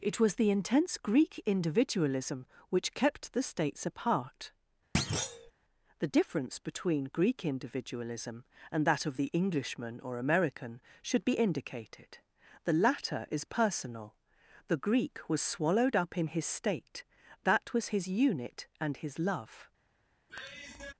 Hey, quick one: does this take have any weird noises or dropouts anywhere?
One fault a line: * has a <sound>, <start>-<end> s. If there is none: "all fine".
* has a thud, 4.9-5.5 s
* has a sigh, 20.3-20.9 s